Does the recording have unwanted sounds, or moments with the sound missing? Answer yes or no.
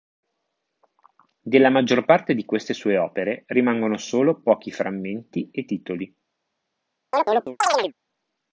yes